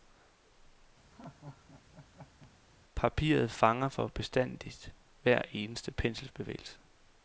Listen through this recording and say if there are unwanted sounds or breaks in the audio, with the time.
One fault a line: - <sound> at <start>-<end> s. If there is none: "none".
- laugh at 1.1-2.5 s